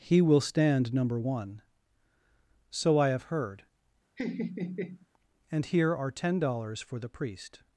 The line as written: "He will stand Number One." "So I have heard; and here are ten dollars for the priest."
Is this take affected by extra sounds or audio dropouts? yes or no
yes